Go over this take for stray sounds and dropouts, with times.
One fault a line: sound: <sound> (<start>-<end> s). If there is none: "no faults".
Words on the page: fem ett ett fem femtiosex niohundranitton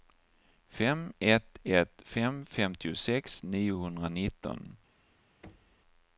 sound: thud (5.4-5.8 s)